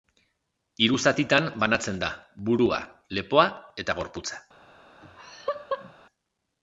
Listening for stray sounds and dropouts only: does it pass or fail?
fail